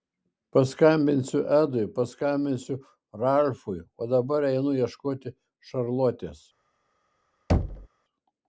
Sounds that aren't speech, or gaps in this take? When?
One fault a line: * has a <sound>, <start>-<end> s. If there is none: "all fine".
* has a thud, 7.5-7.9 s